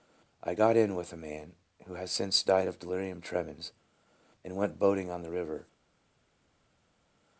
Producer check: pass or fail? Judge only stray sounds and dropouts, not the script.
pass